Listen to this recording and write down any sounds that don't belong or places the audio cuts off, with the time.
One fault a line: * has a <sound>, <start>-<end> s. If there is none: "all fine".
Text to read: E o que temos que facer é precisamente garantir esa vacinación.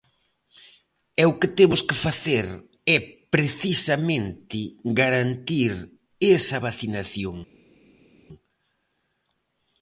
all fine